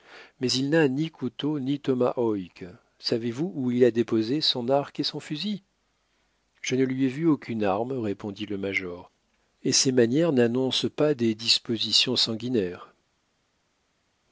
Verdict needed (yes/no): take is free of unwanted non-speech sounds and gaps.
yes